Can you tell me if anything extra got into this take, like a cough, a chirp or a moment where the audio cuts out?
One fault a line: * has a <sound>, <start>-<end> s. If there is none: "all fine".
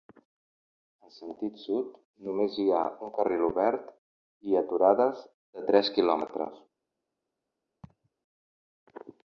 * has a laugh, 7.8-8.1 s